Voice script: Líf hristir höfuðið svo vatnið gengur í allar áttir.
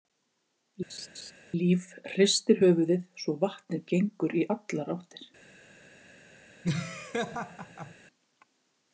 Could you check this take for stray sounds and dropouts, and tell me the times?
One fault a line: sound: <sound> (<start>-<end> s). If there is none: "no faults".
sound: laugh (0.9-1.3 s)
sound: laugh (6.6-7.9 s)